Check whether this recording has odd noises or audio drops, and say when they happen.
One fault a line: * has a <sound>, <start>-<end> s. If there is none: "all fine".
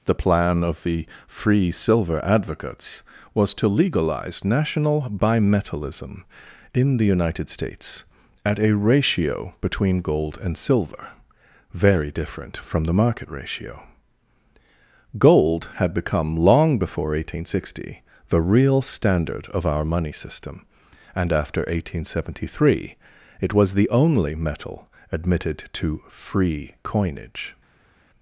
all fine